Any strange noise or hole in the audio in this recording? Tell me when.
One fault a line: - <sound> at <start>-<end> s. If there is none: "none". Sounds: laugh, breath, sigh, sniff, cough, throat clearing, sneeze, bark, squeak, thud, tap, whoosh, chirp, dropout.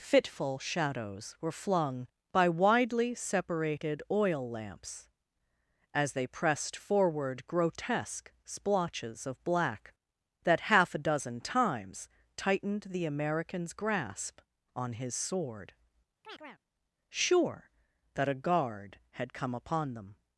- chirp at 16.2-16.6 s